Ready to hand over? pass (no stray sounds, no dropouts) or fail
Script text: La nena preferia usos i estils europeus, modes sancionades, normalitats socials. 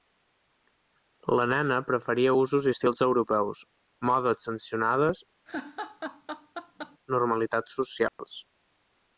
fail